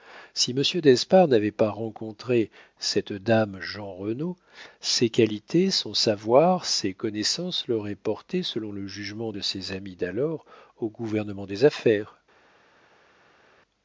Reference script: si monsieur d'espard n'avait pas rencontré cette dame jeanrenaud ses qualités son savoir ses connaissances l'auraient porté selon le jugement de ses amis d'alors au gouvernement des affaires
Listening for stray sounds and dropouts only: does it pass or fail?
pass